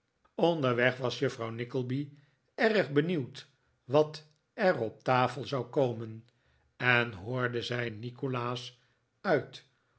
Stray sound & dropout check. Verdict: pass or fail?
pass